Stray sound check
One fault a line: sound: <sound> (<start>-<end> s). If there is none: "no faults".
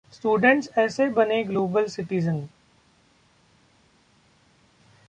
no faults